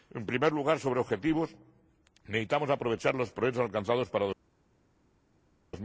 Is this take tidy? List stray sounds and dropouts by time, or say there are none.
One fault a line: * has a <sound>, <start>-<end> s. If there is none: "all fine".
all fine